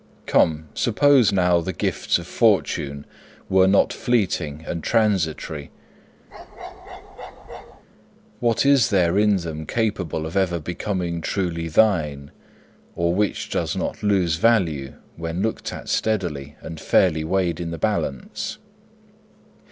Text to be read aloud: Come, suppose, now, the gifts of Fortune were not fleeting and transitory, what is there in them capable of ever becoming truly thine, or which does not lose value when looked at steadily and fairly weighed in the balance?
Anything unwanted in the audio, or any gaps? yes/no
yes